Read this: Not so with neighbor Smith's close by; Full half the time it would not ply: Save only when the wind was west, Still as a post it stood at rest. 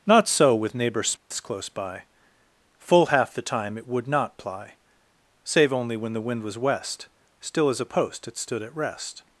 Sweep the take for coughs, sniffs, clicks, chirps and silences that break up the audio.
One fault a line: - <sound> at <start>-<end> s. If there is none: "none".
- dropout at 1.2-1.3 s